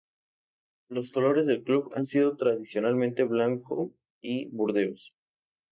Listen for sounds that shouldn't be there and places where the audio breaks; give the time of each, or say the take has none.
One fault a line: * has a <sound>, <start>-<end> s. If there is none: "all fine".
all fine